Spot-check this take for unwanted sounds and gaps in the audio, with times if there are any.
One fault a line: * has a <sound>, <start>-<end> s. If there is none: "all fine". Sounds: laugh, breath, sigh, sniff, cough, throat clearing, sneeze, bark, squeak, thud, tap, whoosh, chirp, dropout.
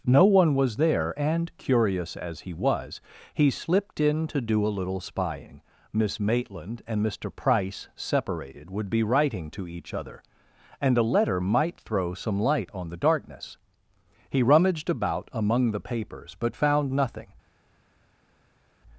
all fine